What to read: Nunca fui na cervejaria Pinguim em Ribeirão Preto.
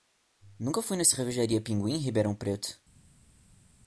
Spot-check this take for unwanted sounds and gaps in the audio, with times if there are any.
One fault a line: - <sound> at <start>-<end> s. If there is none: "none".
none